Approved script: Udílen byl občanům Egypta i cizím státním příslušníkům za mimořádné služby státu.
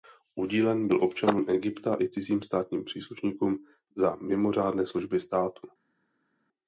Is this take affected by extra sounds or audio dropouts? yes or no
no